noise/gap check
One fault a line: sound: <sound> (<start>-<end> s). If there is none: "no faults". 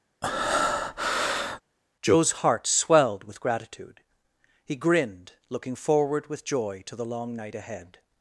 sound: breath (0.2-1.6 s)